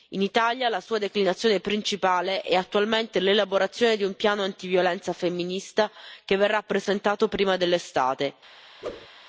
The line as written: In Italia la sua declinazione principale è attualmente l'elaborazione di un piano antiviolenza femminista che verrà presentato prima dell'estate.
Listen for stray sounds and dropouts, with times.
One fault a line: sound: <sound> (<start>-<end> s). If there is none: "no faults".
sound: whoosh (8.8-9.1 s)